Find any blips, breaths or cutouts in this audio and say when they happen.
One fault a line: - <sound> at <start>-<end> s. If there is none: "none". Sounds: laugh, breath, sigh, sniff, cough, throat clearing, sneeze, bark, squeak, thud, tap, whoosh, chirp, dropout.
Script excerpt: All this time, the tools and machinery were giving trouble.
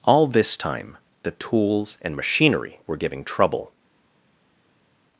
none